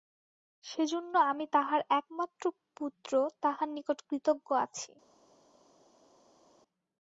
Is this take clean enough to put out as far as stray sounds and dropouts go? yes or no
yes